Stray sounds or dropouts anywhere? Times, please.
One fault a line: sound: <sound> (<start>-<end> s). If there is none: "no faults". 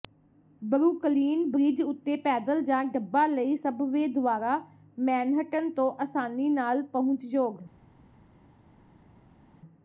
no faults